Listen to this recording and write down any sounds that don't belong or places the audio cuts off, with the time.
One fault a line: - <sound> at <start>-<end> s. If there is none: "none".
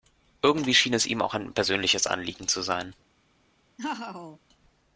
- laugh at 3.8-4.4 s